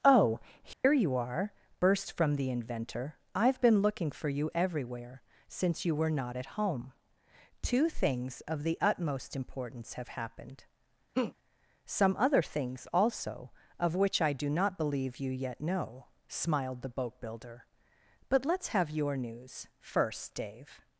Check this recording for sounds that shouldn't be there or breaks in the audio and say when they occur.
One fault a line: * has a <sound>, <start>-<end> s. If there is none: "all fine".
* has a dropout, 0.7-0.8 s
* has a laugh, 11.1-11.3 s